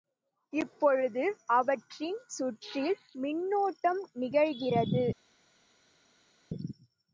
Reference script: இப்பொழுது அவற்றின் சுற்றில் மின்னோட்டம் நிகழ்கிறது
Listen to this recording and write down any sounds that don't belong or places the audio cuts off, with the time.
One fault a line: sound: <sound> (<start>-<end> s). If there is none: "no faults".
no faults